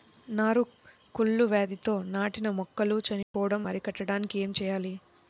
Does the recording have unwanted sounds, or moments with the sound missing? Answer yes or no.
yes